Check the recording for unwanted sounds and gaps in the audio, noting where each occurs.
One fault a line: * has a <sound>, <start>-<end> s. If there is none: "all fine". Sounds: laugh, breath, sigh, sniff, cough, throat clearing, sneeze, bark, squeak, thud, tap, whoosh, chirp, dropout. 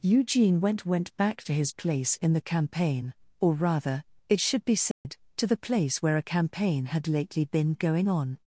* has a dropout, 4.9-5.0 s